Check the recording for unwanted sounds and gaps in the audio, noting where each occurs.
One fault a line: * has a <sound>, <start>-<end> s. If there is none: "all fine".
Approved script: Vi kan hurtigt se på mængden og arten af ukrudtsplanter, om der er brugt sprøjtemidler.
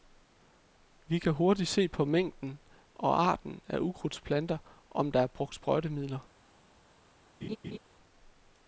* has a laugh, 7.4-7.8 s